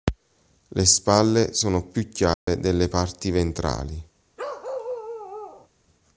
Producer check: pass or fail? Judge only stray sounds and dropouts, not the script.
fail